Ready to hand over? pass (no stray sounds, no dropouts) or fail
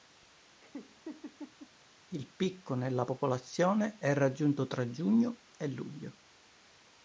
fail